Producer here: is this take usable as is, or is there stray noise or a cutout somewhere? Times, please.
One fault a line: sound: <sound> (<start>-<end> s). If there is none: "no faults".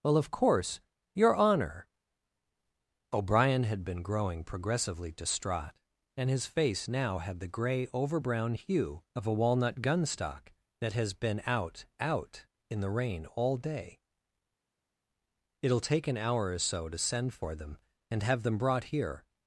no faults